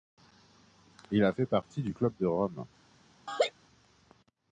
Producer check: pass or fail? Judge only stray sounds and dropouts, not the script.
fail